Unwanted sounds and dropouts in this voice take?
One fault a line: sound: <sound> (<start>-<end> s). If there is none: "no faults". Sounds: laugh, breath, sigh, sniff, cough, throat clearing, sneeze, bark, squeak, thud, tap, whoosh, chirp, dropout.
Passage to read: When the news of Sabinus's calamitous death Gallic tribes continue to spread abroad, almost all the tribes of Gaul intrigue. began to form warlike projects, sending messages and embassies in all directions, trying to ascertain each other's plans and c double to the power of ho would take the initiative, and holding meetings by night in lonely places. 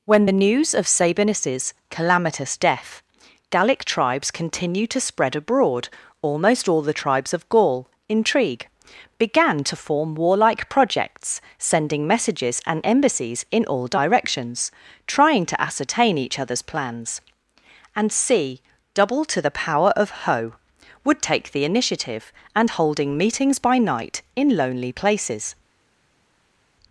no faults